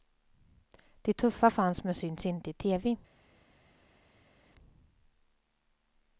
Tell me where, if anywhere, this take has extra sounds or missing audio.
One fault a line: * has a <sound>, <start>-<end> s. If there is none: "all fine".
all fine